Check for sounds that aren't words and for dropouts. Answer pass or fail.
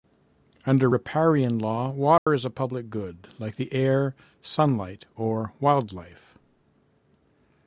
fail